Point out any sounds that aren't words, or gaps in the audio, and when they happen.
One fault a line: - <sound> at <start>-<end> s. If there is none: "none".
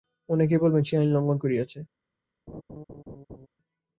- laugh at 2.5-3.5 s